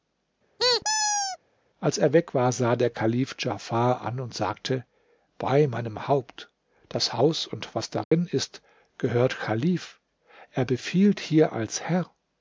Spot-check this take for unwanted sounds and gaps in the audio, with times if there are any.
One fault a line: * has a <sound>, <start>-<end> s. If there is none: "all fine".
* has a squeak, 0.6-1.4 s
* has a dropout, 8.0-8.1 s